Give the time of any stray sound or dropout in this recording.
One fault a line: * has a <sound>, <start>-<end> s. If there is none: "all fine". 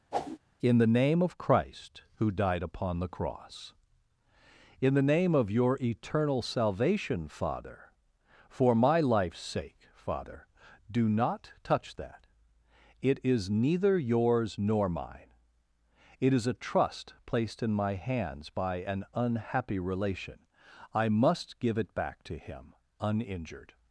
* has a whoosh, 0.1-0.4 s